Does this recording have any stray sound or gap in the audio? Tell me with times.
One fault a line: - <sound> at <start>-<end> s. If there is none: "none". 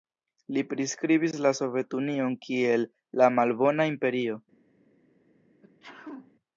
- sneeze at 5.6-6.3 s